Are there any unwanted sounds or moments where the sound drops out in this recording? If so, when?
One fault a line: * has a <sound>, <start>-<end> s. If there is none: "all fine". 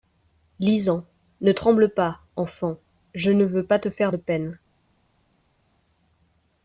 all fine